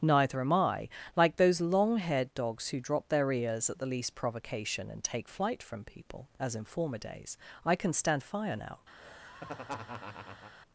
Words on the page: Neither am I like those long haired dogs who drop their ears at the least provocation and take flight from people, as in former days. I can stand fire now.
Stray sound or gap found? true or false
true